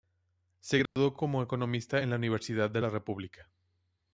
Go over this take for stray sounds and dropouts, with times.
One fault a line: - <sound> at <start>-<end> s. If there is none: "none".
- dropout at 0.9-1.0 s